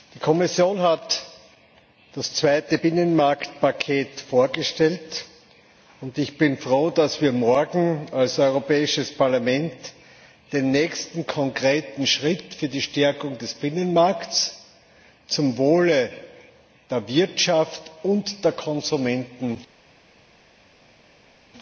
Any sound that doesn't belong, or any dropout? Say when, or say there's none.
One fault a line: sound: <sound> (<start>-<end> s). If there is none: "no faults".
no faults